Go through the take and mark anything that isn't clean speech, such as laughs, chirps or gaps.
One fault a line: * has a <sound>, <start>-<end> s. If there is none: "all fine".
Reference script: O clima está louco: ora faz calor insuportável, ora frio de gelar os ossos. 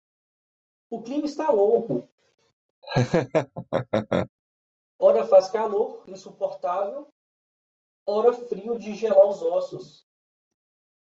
* has a laugh, 2.8-4.3 s